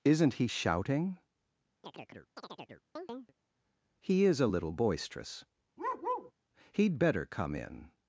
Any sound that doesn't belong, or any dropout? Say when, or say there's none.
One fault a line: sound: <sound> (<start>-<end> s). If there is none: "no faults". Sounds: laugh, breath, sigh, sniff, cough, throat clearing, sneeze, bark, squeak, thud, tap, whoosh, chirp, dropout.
sound: chirp (1.8-3.3 s)
sound: bark (5.8-6.3 s)